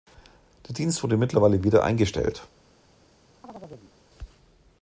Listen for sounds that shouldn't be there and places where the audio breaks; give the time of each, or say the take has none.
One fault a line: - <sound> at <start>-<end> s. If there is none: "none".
- chirp at 3.4-3.9 s